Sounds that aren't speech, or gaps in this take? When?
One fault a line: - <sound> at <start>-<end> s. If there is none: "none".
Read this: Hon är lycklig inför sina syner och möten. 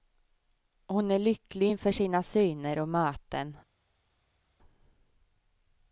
none